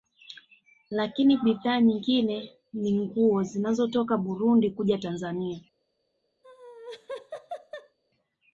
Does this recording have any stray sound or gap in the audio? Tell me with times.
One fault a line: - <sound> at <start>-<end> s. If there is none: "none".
- laugh at 6.4-8.0 s